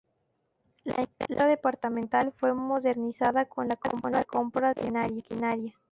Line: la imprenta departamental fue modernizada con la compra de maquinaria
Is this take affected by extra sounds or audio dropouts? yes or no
no